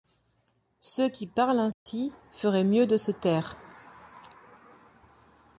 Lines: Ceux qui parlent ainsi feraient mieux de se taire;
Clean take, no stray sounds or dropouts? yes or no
no